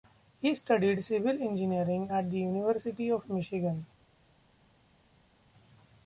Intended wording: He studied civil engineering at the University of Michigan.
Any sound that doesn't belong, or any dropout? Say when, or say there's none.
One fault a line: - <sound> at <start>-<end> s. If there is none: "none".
none